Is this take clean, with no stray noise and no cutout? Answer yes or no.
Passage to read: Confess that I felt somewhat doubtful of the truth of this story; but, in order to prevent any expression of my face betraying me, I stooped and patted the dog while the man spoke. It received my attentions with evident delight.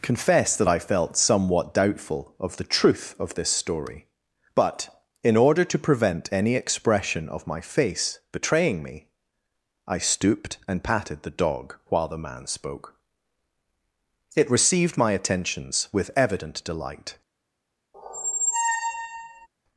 no